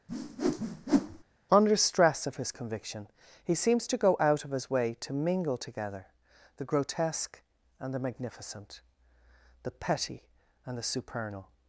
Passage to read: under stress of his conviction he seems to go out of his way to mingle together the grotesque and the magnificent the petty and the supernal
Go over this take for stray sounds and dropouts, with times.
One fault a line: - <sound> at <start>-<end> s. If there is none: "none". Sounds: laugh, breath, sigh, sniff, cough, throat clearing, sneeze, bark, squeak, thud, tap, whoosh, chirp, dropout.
- whoosh at 0.1-1.2 s